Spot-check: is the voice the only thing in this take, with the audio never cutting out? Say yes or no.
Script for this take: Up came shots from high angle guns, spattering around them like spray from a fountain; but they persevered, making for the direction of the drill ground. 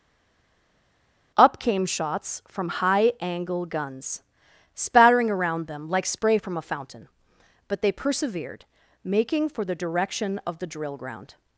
yes